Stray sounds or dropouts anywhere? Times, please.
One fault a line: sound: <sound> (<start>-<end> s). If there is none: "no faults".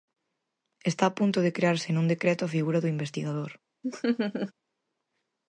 sound: laugh (3.8-4.5 s)